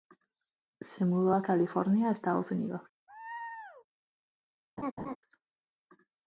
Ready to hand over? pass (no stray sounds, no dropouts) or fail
fail